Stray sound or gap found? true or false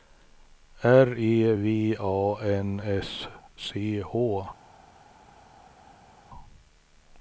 false